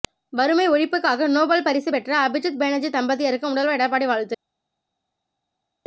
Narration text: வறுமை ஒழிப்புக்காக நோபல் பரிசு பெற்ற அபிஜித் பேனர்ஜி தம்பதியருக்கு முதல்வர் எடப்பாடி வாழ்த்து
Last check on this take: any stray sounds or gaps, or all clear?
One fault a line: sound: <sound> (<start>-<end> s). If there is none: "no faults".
no faults